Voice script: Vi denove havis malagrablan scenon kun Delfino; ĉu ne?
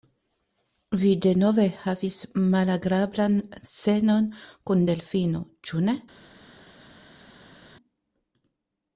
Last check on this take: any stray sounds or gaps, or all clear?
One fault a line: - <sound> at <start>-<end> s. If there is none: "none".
none